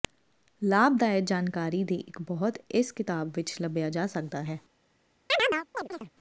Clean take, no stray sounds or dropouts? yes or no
no